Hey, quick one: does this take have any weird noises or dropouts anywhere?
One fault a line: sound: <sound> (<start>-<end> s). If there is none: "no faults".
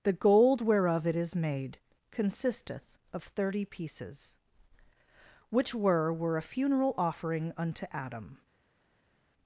no faults